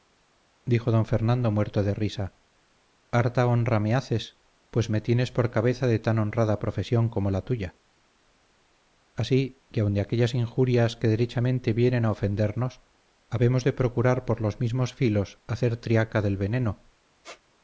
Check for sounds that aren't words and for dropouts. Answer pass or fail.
fail